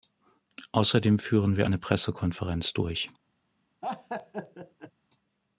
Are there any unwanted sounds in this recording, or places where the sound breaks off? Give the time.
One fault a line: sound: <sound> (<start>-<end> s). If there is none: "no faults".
sound: laugh (3.8-4.9 s)